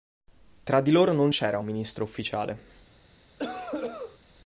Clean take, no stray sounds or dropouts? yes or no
no